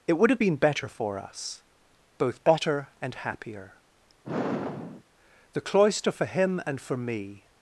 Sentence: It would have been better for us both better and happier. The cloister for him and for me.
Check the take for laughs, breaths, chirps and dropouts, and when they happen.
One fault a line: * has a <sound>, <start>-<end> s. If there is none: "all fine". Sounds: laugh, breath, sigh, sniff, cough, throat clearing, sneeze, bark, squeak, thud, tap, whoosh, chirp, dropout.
* has a sigh, 4.2-5.0 s